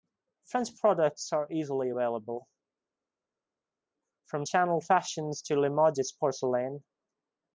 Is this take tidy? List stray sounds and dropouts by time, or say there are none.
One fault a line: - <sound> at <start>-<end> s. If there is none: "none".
none